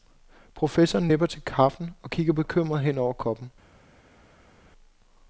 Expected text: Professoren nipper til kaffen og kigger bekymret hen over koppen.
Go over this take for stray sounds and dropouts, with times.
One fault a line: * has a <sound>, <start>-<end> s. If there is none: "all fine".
all fine